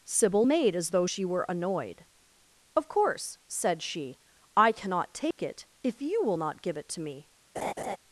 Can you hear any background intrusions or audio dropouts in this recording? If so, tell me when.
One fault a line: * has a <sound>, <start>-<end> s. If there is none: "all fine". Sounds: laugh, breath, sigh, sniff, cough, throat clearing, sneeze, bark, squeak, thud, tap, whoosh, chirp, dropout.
* has a dropout, 5.3-5.4 s
* has a laugh, 7.5-8.0 s